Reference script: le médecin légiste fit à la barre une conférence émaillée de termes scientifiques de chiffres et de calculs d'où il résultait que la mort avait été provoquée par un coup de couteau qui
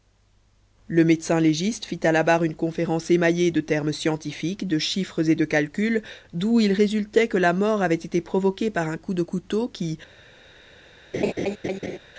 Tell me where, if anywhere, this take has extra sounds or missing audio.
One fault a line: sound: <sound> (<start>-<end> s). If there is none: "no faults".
sound: laugh (11.1-12.0 s)